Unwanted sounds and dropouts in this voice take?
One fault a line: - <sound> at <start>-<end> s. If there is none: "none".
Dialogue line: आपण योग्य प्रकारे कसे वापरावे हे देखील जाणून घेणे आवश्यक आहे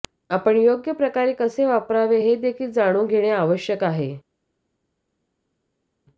none